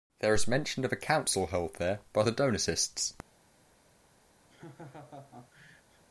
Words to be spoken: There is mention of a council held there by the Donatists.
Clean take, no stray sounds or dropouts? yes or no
no